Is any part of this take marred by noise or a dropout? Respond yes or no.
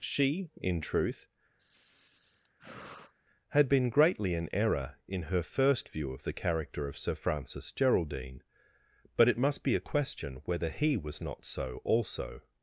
yes